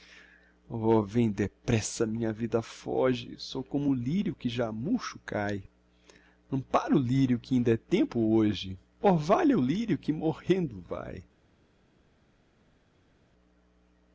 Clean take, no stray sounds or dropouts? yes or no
yes